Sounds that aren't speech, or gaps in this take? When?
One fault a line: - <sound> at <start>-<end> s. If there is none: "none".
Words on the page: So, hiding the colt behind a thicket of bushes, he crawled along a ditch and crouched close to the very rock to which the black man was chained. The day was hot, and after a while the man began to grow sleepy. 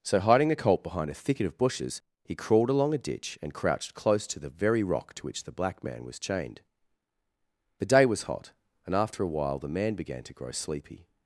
none